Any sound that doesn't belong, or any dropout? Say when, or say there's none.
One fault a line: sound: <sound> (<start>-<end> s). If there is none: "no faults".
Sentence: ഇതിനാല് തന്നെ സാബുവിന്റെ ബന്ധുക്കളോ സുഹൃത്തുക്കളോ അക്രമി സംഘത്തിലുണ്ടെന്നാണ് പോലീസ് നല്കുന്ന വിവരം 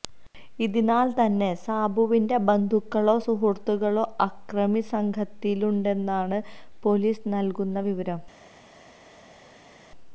no faults